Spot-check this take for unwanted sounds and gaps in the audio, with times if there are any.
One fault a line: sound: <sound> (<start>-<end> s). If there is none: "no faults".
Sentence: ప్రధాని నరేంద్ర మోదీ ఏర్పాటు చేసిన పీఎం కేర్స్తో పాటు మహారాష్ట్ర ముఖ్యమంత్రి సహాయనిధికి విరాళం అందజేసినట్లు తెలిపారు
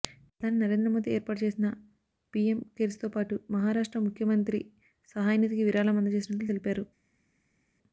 no faults